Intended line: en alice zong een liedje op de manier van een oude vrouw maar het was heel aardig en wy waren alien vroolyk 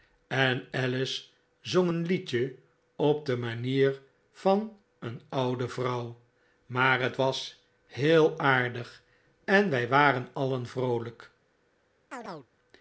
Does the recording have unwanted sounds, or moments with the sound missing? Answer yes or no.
yes